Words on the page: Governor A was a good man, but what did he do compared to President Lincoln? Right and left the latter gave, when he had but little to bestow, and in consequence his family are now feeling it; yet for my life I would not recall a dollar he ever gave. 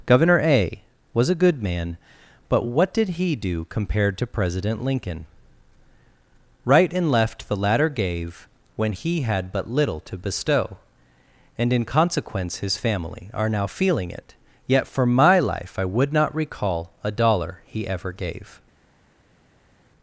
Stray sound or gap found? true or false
false